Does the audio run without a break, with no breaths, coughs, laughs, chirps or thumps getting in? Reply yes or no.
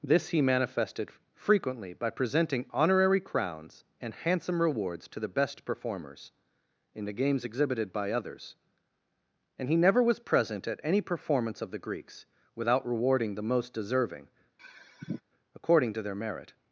no